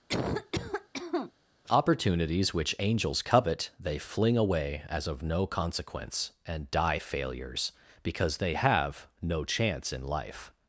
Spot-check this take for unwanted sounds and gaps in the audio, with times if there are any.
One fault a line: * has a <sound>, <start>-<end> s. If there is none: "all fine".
* has a cough, 0.1-1.3 s